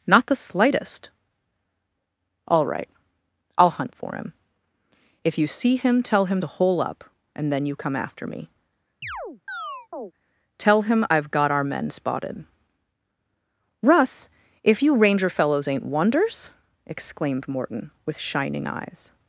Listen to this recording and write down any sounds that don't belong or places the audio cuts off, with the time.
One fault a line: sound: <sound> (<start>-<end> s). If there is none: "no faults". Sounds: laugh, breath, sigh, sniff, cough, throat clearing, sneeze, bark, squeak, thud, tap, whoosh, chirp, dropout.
sound: chirp (9.0-10.1 s)